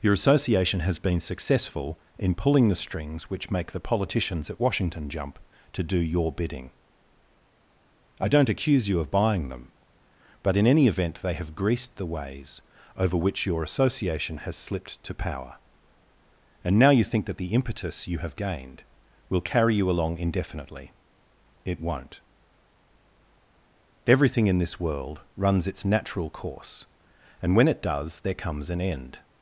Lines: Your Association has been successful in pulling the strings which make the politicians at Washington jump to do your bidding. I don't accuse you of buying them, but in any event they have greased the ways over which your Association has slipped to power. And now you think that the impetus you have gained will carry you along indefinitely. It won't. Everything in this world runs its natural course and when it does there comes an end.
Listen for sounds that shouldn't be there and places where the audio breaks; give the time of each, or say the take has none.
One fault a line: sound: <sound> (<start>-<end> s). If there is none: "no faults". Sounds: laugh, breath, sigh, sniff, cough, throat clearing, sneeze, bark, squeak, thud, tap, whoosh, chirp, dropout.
no faults